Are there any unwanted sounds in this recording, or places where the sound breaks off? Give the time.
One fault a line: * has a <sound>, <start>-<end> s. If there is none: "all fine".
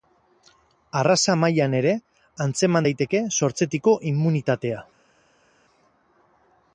all fine